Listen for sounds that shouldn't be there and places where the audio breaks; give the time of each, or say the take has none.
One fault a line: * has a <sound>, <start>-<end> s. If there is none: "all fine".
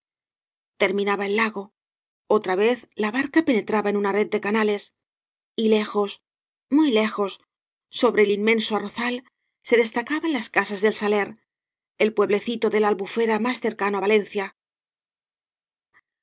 all fine